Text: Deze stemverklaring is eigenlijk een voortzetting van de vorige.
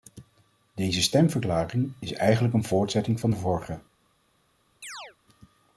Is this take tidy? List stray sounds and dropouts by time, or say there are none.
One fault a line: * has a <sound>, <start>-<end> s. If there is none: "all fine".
* has a chirp, 4.8-5.2 s